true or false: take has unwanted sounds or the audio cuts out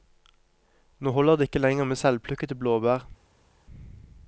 false